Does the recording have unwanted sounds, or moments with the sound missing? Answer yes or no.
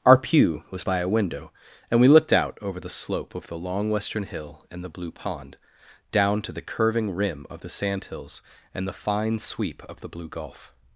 no